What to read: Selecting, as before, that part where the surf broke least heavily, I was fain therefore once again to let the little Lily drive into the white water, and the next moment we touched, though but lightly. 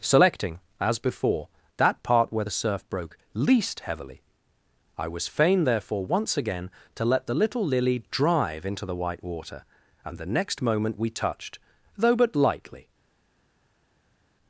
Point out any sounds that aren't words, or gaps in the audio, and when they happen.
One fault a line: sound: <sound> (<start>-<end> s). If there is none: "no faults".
no faults